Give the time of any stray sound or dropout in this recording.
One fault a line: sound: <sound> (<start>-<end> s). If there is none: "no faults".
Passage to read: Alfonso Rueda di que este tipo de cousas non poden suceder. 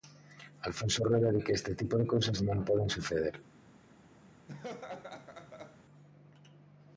sound: laugh (4.5-5.8 s)